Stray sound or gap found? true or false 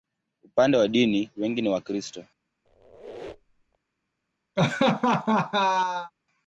true